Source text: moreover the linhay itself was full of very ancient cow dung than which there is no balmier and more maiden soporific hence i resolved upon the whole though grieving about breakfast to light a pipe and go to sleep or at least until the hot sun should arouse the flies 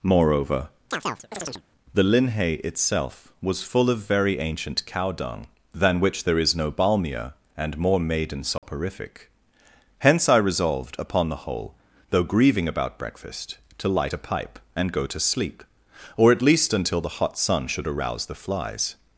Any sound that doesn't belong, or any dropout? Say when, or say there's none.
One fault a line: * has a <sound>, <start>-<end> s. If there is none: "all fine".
* has a chirp, 0.9-1.6 s
* has a dropout, 8.6-8.6 s